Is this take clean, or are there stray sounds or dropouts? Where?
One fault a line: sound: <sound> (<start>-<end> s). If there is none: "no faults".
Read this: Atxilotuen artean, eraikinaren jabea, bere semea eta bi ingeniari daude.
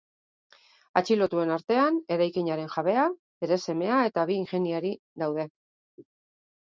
no faults